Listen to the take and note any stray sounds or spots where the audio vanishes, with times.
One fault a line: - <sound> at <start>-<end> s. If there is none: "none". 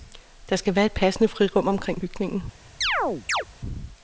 - chirp at 2.8-3.5 s